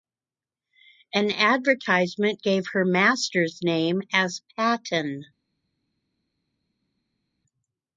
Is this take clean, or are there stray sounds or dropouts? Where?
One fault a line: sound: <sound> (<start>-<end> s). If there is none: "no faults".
no faults